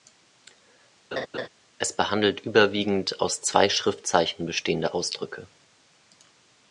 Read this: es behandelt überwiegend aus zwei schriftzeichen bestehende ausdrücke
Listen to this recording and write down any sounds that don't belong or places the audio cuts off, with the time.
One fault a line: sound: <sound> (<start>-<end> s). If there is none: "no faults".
sound: laugh (1.1-1.5 s)